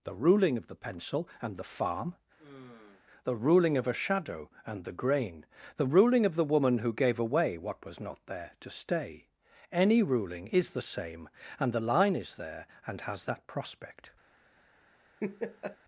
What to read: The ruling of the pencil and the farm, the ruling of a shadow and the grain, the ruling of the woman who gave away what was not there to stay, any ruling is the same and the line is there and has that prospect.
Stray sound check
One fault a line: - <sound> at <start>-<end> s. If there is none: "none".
- sigh at 2.4-3.0 s
- laugh at 15.2-15.8 s